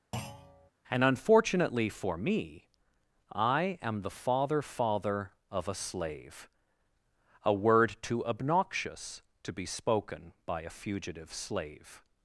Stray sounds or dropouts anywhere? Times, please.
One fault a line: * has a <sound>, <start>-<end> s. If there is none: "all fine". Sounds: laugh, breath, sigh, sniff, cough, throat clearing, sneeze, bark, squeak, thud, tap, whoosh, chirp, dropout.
* has a thud, 0.1-0.7 s